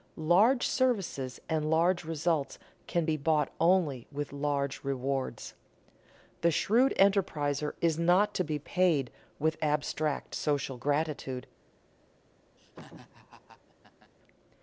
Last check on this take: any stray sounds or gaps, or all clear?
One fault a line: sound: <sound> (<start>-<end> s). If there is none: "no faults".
sound: laugh (12.6-14.1 s)